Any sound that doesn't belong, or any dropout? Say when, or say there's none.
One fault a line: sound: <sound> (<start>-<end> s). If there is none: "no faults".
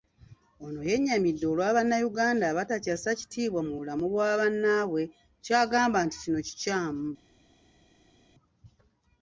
no faults